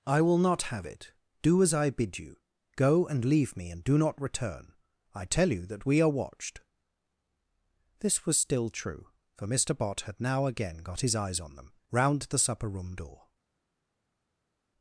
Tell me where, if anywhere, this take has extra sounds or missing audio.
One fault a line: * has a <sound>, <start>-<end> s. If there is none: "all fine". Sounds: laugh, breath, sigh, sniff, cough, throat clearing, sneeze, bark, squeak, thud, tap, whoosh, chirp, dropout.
all fine